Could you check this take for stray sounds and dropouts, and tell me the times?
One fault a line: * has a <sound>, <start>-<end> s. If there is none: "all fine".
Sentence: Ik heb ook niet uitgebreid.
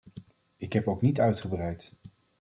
all fine